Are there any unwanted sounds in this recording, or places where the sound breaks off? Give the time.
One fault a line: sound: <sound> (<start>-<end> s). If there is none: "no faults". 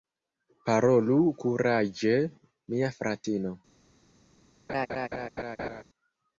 sound: laugh (4.7-5.8 s)